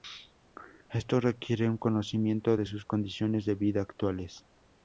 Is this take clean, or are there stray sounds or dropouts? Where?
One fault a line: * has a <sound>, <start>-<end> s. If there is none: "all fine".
all fine